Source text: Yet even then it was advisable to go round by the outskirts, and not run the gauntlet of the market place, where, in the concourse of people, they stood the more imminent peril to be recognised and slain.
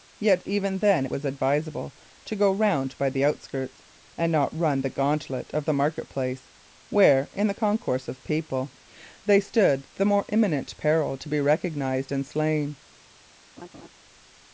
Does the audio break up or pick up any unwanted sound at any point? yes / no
yes